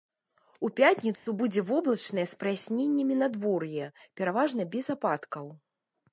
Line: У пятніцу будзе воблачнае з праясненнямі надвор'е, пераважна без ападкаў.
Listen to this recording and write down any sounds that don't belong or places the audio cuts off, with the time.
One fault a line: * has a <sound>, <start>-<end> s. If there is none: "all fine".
* has a dropout, 1.2-1.3 s